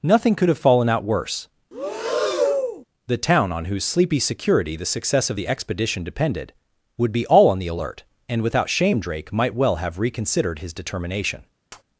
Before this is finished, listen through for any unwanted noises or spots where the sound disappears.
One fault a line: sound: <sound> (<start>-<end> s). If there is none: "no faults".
sound: breath (1.7-2.8 s)
sound: tap (11.7-11.8 s)